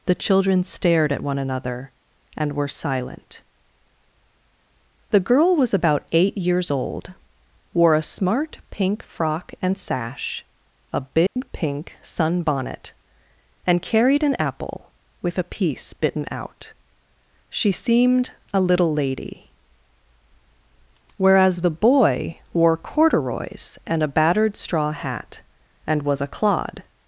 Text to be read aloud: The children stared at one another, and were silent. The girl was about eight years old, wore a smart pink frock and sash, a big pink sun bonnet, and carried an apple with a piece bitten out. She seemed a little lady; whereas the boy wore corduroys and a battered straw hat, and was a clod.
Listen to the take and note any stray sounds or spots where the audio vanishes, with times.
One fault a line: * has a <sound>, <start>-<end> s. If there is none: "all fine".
* has a dropout, 11.3-11.4 s